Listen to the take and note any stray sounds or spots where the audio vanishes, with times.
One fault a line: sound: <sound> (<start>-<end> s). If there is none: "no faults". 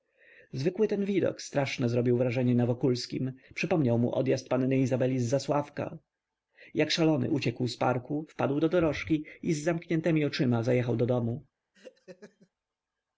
sound: laugh (11.7-12.5 s)